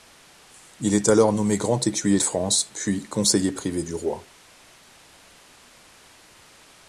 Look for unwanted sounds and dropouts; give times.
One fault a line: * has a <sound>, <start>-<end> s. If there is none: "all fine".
all fine